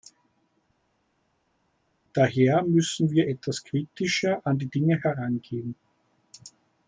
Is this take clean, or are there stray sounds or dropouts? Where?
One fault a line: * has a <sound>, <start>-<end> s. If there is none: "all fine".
all fine